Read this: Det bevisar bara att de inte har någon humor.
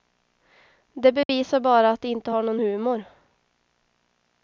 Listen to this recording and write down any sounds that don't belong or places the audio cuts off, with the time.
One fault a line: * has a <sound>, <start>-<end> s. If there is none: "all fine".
* has a dropout, 1.2-1.3 s